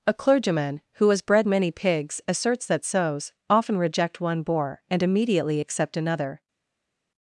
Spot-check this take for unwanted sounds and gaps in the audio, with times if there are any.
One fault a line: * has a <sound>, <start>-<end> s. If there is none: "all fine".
all fine